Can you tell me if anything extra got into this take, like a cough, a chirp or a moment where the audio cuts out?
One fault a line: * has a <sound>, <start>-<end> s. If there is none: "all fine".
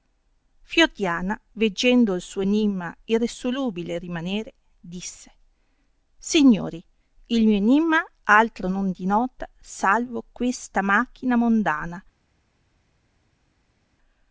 all fine